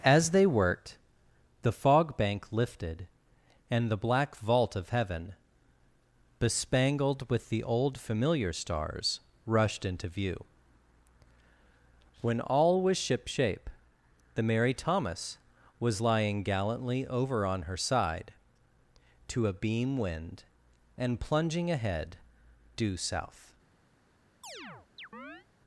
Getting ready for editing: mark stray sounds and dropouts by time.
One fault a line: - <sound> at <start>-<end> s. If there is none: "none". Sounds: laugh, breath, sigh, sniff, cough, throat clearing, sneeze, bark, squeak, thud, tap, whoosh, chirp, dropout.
- chirp at 24.4-25.5 s